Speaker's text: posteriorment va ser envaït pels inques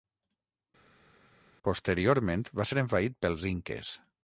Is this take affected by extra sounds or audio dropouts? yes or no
no